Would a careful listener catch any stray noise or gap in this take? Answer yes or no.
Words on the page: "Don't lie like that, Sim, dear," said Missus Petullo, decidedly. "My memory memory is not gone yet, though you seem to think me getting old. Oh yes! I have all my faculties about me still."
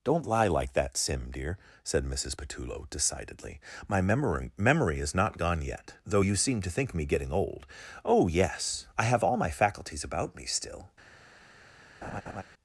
yes